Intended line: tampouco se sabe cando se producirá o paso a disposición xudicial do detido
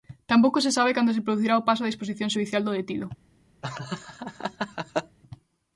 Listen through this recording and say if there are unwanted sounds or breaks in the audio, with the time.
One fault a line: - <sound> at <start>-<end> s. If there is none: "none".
- laugh at 3.6-5.2 s